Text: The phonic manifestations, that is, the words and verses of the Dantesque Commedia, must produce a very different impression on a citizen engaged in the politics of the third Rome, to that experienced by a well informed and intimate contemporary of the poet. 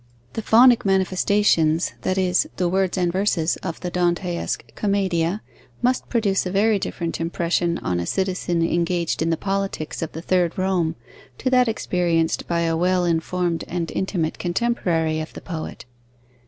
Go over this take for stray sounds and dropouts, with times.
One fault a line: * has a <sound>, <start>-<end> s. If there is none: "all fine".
all fine